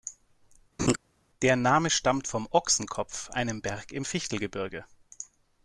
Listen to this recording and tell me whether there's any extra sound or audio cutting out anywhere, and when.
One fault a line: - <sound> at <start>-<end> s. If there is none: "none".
- laugh at 0.8-1.0 s